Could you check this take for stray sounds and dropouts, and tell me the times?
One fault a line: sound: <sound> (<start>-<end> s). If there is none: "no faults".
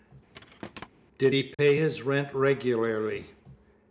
sound: thud (0.3-0.9 s)
sound: dropout (1.5-1.6 s)